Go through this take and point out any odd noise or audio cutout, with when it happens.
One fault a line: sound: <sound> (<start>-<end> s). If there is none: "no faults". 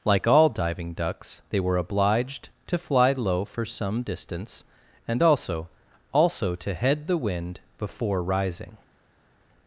no faults